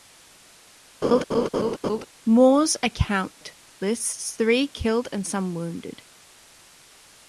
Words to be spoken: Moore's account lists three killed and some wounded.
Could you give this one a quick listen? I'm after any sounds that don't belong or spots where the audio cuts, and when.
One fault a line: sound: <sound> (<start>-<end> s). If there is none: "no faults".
sound: laugh (1.0-2.1 s)